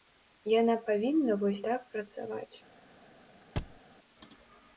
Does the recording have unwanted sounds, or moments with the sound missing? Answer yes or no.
yes